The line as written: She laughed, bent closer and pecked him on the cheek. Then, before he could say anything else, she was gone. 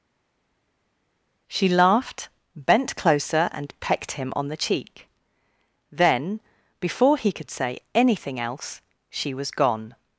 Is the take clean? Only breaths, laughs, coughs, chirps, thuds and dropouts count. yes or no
yes